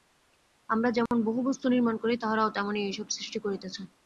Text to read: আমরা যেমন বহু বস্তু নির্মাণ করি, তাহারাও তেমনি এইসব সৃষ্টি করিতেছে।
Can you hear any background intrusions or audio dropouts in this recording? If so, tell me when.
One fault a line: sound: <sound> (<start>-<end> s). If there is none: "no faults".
sound: dropout (1.1-1.1 s)